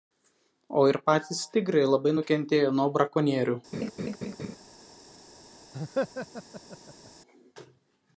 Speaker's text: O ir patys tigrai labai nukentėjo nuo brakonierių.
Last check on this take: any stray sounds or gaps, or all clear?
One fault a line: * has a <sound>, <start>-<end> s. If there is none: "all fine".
* has a laugh, 3.7-4.6 s
* has a laugh, 5.7-7.1 s